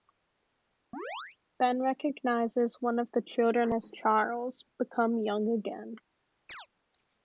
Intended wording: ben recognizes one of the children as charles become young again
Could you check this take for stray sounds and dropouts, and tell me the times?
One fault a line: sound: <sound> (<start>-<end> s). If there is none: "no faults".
sound: chirp (0.9-1.4 s)
sound: chirp (6.5-6.7 s)